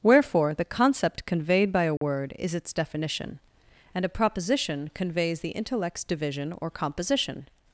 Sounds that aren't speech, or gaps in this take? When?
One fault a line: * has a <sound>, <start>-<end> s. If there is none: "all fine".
* has a dropout, 2.0-2.0 s